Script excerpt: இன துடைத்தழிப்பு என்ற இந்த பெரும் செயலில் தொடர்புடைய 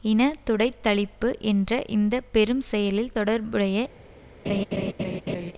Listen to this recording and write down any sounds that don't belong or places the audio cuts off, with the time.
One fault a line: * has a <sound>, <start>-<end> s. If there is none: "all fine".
* has a laugh, 4.4-5.5 s